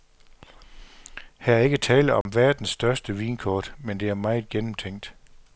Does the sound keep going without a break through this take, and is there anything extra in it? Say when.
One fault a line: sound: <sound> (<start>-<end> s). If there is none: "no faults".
sound: dropout (2.2-2.3 s)